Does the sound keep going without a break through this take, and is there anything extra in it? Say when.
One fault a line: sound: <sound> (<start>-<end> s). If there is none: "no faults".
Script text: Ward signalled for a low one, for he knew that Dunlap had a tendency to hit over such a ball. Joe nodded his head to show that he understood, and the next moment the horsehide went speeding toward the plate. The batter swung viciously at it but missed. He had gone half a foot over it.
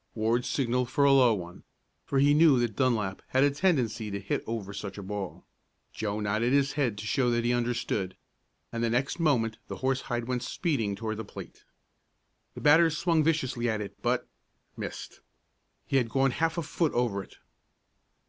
no faults